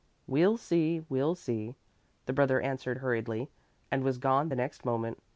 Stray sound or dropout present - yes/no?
no